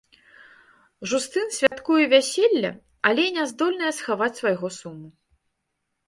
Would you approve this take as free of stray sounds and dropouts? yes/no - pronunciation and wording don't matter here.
no